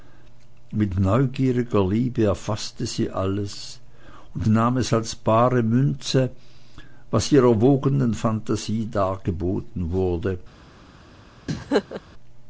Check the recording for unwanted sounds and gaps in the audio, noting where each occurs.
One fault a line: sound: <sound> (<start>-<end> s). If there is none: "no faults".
sound: laugh (11.5-12.0 s)